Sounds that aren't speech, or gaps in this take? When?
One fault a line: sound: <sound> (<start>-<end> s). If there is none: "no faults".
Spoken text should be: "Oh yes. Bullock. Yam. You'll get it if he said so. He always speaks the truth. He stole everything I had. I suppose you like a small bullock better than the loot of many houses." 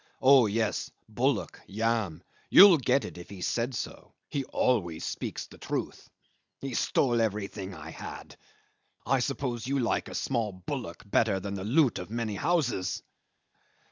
no faults